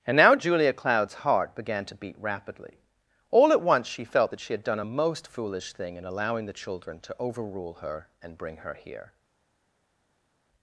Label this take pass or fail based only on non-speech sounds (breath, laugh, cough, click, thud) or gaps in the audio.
pass